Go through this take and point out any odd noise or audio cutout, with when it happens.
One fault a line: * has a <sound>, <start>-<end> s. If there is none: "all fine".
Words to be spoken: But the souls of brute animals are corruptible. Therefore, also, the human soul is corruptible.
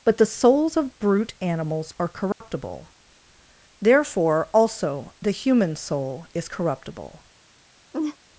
* has a dropout, 2.3-2.4 s
* has a laugh, 7.9-8.2 s